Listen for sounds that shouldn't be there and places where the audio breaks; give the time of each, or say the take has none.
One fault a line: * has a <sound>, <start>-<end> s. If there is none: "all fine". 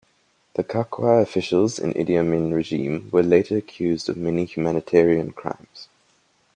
all fine